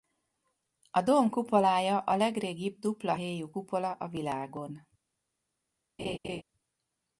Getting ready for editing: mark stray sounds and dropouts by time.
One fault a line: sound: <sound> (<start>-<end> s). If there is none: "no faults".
sound: laugh (6.0-6.4 s)